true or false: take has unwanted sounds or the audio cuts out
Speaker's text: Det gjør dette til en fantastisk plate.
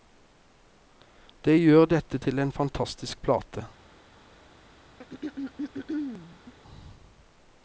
true